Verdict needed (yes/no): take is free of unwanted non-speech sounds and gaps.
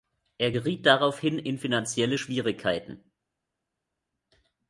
yes